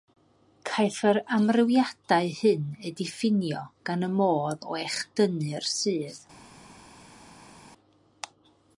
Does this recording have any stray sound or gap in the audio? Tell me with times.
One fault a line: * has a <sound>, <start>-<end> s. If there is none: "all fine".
all fine